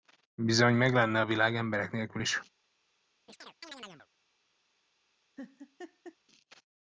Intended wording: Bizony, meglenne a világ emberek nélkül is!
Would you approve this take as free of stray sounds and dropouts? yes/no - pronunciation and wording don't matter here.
no